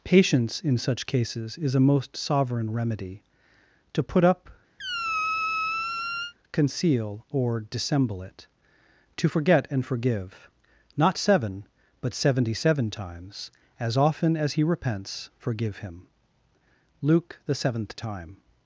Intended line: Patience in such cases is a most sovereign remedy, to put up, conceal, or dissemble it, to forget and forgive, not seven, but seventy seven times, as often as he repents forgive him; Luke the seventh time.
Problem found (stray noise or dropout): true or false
true